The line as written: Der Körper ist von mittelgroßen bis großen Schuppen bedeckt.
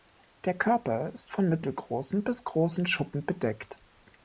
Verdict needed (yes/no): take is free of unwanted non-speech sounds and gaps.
yes